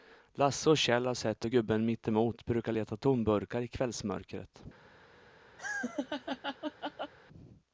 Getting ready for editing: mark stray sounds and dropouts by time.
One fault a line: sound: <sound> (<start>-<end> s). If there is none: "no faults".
sound: laugh (5.6-7.1 s)